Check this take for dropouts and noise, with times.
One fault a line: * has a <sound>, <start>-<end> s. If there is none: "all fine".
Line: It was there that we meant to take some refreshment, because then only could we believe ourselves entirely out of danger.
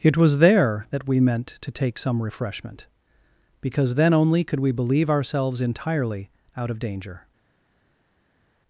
all fine